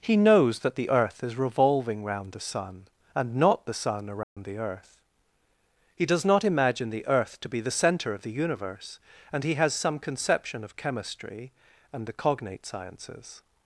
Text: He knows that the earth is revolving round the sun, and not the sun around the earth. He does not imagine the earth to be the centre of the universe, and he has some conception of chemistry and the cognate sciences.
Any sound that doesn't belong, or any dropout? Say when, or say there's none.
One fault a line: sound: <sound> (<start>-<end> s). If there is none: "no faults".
sound: dropout (4.2-4.4 s)